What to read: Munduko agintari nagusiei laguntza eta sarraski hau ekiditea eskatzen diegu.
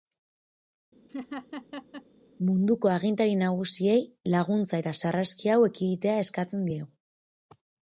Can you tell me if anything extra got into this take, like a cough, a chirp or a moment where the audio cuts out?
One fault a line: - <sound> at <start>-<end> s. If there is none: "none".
- laugh at 1.1-2.0 s